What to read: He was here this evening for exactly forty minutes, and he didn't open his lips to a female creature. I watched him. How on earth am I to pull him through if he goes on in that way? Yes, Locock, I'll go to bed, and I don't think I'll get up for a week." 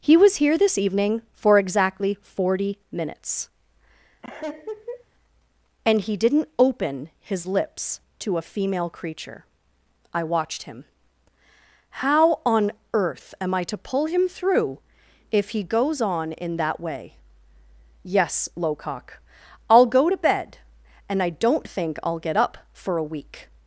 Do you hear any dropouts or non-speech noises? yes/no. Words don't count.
yes